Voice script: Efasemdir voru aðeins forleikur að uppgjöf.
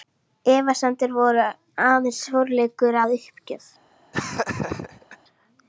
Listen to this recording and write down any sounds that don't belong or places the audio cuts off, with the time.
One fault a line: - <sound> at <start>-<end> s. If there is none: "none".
- laugh at 4.1-5.2 s